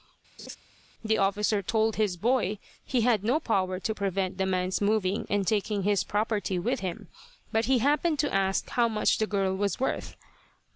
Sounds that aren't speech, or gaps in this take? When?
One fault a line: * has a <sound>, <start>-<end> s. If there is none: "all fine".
* has a laugh, 0.4-0.6 s